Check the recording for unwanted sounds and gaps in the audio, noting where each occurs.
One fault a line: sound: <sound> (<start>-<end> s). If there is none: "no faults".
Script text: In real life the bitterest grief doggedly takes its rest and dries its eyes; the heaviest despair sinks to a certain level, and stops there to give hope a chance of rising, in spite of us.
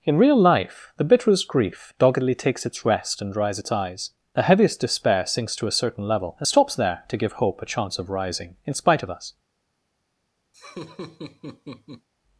sound: laugh (10.5-12.1 s)